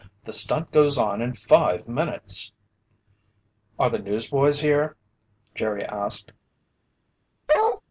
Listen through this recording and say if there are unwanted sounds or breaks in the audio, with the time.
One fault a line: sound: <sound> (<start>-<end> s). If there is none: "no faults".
sound: bark (7.5-7.8 s)